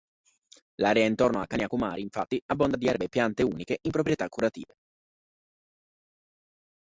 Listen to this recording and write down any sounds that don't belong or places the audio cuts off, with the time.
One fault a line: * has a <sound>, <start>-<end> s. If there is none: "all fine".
all fine